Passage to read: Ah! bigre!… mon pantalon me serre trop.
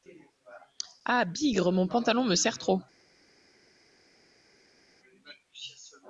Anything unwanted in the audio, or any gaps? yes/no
no